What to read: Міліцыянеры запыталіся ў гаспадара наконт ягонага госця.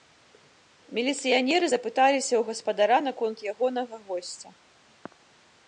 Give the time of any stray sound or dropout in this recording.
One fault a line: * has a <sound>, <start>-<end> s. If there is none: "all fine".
all fine